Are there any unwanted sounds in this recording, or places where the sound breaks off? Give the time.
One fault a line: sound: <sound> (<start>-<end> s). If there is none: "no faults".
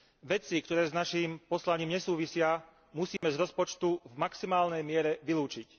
sound: dropout (3.2-3.2 s)